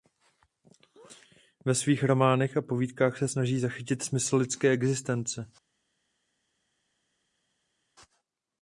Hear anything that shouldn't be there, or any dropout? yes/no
no